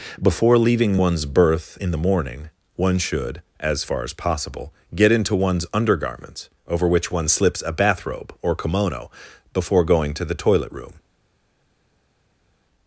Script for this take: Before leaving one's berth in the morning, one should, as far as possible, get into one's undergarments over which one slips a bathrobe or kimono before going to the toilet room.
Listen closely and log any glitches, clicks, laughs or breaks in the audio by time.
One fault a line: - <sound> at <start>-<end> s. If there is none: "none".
none